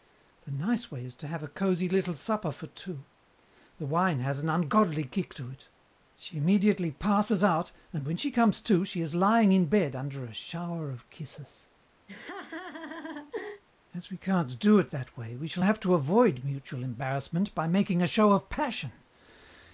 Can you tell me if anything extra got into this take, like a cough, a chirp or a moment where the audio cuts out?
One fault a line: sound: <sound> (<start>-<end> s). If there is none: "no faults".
sound: laugh (12.1-13.6 s)